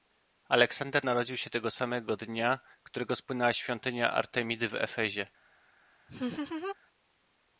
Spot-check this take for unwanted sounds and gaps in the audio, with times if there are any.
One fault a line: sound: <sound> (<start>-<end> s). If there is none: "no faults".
sound: laugh (6.1-6.8 s)